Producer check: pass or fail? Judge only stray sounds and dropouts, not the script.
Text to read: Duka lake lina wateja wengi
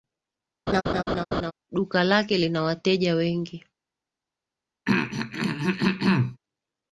fail